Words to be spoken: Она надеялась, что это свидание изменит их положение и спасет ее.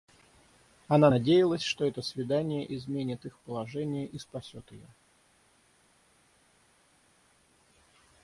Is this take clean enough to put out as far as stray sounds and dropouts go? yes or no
yes